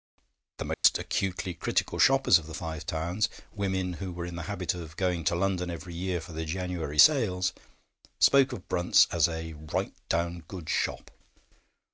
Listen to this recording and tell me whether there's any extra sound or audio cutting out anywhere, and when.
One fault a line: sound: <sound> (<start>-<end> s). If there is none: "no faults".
sound: dropout (0.7-0.8 s)